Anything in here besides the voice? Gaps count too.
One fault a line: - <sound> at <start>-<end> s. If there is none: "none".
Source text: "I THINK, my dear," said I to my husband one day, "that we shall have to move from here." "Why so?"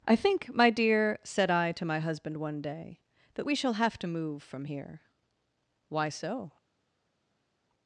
none